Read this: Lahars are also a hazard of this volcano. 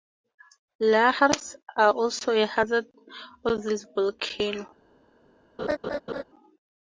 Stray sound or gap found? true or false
true